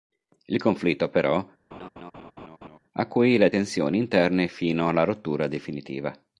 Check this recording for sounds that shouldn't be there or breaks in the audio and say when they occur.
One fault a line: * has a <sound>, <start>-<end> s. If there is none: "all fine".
* has a laugh, 1.7-2.8 s